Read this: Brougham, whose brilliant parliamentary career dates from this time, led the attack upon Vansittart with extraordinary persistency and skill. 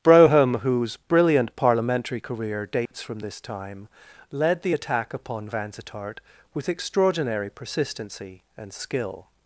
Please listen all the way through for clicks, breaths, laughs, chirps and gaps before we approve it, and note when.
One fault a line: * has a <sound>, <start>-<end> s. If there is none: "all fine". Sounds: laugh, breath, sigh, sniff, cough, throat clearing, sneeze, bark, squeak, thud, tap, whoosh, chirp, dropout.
* has a dropout, 2.9-2.9 s